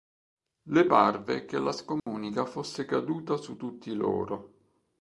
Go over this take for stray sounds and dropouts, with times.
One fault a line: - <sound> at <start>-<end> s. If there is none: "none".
- dropout at 2.0-2.1 s